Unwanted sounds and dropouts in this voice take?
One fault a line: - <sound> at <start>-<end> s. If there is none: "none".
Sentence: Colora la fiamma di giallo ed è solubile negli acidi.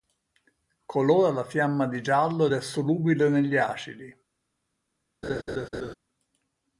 - laugh at 5.2-5.9 s